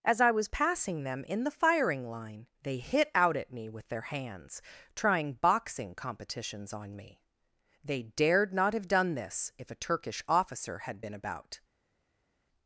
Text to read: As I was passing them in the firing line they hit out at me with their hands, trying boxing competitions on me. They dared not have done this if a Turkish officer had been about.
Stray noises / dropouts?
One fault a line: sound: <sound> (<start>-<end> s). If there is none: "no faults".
no faults